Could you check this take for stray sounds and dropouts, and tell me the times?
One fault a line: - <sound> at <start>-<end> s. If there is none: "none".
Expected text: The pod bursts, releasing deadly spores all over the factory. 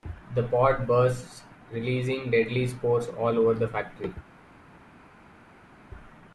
none